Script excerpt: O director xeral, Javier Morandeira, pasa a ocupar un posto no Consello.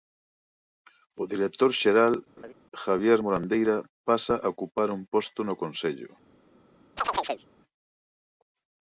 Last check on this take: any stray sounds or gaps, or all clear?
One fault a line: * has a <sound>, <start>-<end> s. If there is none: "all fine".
* has a laugh, 2.4-2.5 s
* has a chirp, 7.0-7.5 s